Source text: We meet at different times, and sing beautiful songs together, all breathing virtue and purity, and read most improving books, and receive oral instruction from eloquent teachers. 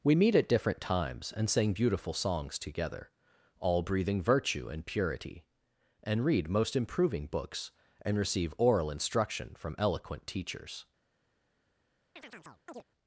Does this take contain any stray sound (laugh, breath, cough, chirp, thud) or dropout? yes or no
yes